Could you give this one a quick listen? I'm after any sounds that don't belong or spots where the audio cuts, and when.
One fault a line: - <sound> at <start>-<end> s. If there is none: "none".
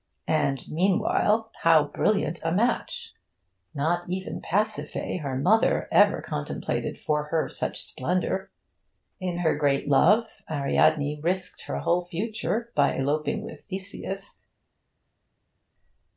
none